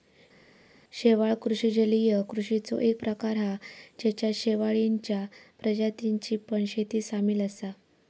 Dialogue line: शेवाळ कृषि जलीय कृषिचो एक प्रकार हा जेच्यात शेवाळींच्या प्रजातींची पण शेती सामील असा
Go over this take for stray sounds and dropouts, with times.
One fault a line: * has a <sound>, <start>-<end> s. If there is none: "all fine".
all fine